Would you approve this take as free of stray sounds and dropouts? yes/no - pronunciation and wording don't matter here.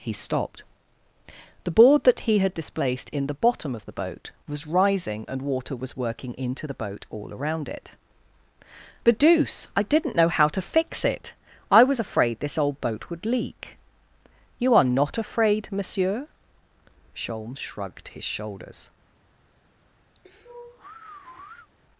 no